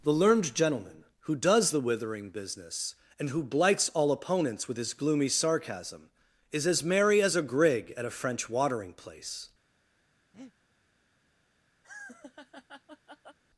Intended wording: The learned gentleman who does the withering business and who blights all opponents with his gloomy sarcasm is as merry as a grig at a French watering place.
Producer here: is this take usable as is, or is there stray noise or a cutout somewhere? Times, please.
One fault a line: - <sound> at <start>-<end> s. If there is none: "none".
- breath at 10.3-10.5 s
- laugh at 11.8-13.4 s